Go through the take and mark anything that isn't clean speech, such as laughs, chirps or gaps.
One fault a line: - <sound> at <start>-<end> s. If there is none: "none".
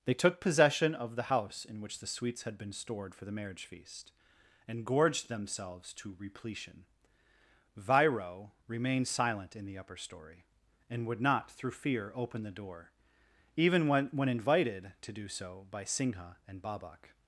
none